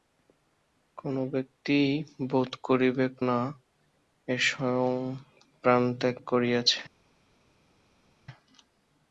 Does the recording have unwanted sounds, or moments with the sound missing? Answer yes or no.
no